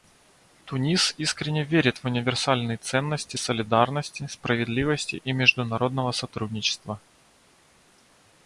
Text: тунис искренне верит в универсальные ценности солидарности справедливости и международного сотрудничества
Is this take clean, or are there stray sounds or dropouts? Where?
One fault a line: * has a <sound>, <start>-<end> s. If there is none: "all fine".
all fine